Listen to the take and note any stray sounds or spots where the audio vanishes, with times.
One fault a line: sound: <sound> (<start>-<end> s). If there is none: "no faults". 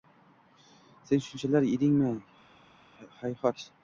no faults